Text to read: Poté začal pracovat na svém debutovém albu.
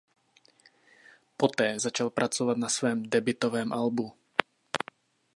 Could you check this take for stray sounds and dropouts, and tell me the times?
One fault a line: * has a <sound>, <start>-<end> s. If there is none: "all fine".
all fine